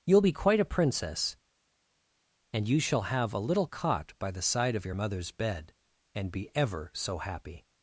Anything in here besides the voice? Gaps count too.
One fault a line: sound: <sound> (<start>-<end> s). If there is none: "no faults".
no faults